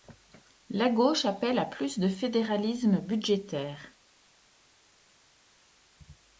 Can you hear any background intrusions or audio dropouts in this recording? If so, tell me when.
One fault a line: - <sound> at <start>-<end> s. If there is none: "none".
none